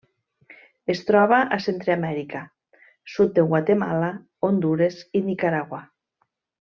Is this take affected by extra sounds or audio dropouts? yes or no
no